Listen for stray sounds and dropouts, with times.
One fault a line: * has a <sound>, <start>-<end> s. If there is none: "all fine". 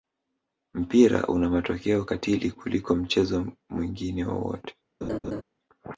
* has a laugh, 5.0-5.4 s